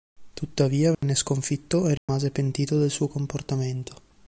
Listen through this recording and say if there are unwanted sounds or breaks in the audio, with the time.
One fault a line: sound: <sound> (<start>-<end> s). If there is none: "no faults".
sound: dropout (0.9-1.0 s)
sound: dropout (2.0-2.1 s)